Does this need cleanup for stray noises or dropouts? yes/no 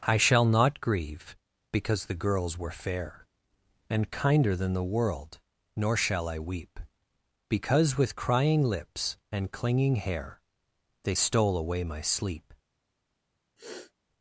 yes